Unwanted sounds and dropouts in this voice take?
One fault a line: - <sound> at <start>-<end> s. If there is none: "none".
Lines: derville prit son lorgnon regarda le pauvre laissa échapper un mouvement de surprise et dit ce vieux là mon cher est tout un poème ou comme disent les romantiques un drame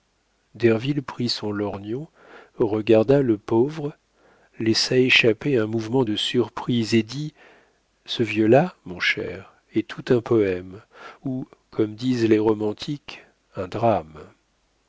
none